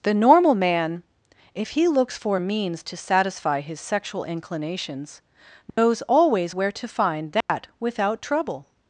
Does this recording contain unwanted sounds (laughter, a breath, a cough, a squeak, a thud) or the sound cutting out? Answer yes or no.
yes